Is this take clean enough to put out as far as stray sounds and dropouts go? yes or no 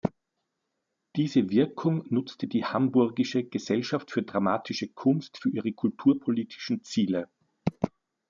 yes